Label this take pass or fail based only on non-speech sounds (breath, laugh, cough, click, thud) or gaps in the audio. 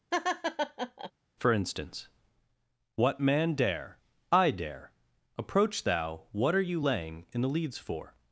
fail